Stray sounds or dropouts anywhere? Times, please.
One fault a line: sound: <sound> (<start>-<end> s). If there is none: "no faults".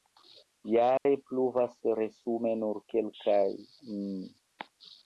sound: dropout (1.0-1.1 s)